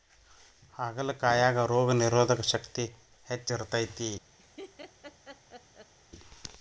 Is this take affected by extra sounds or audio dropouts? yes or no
yes